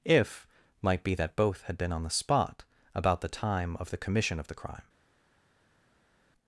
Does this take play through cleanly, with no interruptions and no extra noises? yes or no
yes